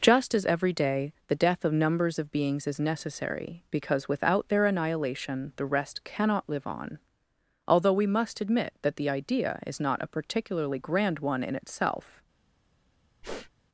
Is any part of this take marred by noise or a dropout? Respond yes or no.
yes